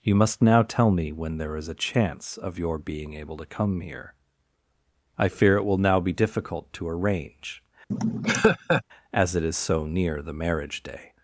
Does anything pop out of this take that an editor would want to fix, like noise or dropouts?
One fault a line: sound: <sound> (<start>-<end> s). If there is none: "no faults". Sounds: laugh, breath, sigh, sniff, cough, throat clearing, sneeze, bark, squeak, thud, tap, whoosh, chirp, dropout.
sound: laugh (7.9-8.8 s)